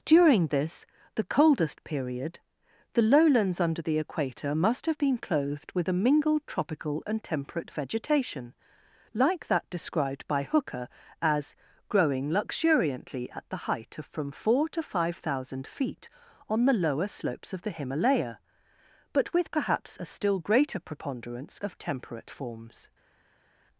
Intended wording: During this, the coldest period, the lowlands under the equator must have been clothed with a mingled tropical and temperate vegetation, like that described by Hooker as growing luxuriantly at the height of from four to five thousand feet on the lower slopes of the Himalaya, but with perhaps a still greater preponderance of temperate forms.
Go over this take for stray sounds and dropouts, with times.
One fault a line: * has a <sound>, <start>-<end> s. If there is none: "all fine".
all fine